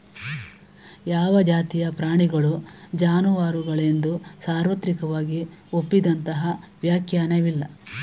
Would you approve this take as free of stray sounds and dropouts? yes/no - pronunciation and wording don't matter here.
yes